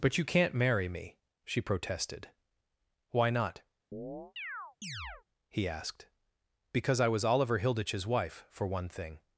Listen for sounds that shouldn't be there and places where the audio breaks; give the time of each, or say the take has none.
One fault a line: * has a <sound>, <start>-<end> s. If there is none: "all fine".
* has a chirp, 3.9-5.2 s